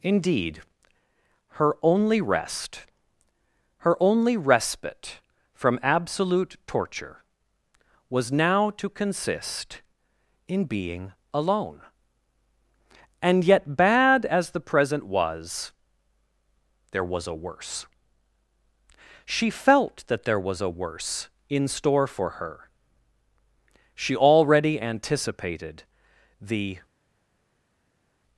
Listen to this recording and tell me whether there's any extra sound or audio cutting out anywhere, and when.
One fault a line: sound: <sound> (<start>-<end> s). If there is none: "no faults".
no faults